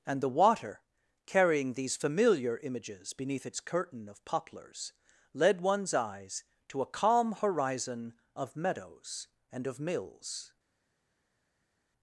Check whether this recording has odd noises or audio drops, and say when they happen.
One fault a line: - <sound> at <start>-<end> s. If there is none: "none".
none